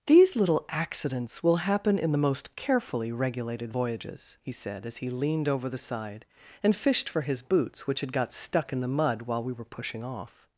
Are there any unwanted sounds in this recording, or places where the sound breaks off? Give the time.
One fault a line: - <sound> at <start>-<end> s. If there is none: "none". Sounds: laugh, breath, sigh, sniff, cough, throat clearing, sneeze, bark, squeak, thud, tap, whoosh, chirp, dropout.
none